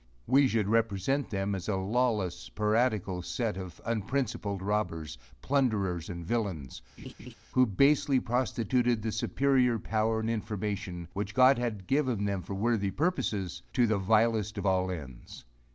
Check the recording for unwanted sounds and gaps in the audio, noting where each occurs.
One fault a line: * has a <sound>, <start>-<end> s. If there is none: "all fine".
* has a laugh, 7.0-7.3 s